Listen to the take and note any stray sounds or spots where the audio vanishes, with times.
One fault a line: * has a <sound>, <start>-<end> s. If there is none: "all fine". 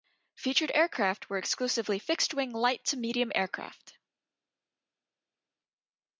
all fine